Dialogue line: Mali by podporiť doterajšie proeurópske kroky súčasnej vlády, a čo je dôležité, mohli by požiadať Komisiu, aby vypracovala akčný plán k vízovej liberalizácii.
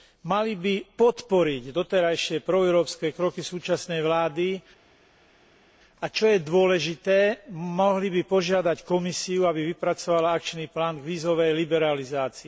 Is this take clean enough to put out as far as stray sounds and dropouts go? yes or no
yes